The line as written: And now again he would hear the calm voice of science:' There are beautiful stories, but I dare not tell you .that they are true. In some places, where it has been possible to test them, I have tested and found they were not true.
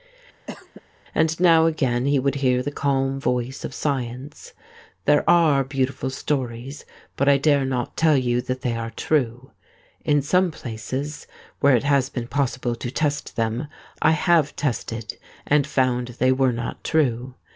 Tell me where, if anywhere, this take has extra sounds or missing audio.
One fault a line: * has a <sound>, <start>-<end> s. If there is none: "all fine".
* has a cough, 0.5-0.8 s